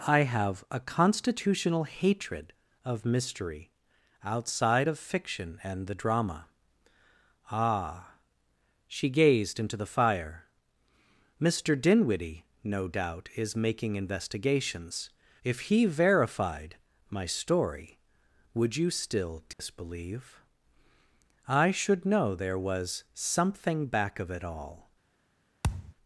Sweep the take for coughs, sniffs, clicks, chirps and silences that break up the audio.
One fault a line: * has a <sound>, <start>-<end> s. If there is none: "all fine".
* has a dropout, 19.5-19.6 s
* has a thud, 25.6-25.9 s